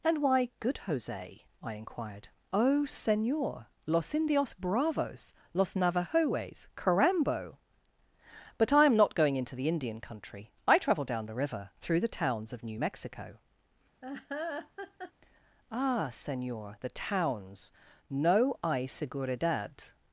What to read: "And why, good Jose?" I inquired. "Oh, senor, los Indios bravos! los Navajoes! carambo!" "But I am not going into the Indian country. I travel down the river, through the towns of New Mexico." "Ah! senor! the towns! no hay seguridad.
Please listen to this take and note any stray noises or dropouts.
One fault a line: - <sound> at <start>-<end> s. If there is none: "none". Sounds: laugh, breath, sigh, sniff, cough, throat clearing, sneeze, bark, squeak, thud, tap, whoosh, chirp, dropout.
- laugh at 14.0-15.1 s